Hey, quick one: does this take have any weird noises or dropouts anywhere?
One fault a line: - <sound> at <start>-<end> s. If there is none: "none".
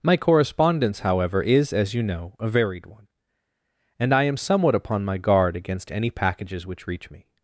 none